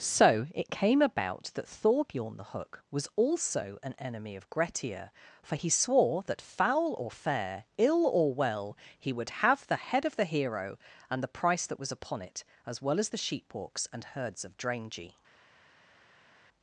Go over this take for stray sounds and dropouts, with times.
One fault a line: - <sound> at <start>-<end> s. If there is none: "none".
none